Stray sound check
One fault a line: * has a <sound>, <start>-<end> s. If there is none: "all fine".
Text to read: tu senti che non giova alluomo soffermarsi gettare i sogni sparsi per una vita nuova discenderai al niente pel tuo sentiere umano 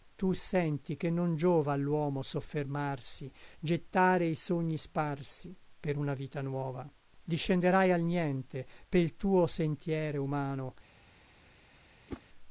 * has a whoosh, 12.1-12.2 s